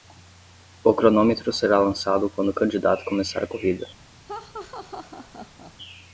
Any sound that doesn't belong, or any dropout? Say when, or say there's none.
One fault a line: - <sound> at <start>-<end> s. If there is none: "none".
- laugh at 4.3-5.7 s